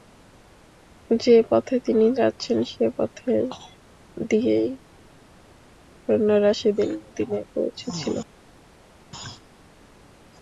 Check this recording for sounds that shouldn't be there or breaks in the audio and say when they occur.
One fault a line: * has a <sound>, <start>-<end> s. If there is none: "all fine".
all fine